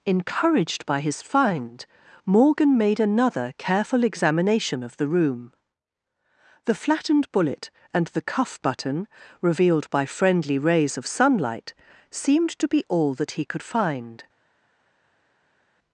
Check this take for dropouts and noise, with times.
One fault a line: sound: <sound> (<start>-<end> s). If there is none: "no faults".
no faults